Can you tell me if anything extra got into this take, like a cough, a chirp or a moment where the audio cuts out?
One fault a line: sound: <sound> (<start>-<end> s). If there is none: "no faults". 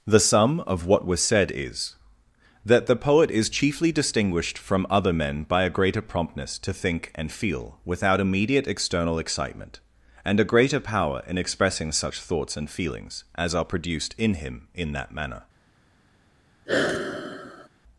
sound: sigh (16.7-17.7 s)